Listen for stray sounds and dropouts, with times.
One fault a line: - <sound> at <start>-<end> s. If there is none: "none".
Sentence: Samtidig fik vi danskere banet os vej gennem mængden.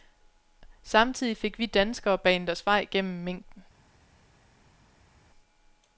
none